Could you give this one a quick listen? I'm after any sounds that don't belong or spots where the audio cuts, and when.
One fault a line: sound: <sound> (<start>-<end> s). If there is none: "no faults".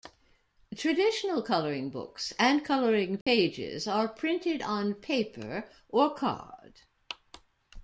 sound: dropout (3.2-3.3 s)